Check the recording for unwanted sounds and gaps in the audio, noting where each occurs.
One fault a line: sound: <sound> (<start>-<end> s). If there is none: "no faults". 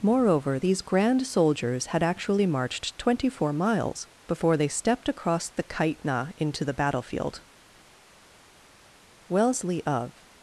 no faults